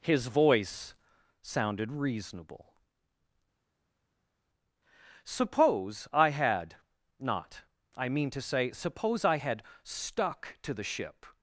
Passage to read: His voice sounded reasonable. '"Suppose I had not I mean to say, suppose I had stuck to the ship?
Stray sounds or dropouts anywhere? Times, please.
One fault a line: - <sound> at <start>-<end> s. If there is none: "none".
none